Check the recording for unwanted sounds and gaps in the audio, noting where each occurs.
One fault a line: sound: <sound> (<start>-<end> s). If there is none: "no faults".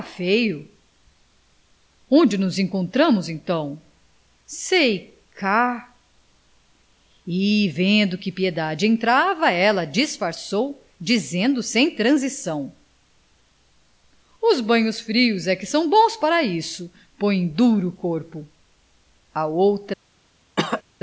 sound: cough (20.6-20.8 s)